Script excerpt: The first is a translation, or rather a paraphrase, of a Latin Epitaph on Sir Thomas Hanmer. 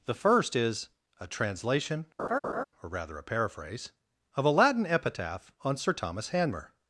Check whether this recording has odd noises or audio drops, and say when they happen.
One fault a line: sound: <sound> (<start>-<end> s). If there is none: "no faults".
sound: laugh (2.2-2.6 s)